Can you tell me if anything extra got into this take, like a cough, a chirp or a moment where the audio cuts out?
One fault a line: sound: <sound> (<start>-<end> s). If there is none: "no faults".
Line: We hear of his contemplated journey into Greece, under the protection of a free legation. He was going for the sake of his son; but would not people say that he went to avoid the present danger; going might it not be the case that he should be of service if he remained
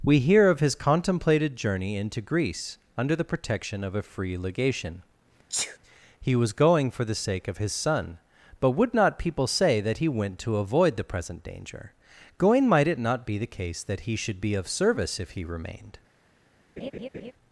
sound: sneeze (5.5-5.8 s)
sound: laugh (16.8-17.3 s)